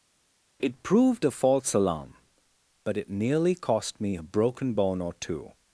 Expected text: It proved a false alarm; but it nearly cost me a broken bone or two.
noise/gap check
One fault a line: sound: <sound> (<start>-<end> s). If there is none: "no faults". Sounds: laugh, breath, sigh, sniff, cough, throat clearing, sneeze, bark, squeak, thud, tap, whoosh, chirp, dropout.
no faults